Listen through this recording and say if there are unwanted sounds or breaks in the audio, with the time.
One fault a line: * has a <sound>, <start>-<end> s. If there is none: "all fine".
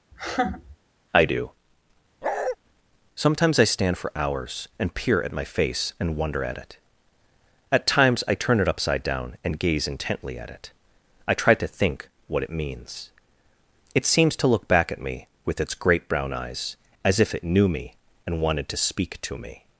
* has a laugh, 0.1-0.8 s
* has a bark, 2.2-2.6 s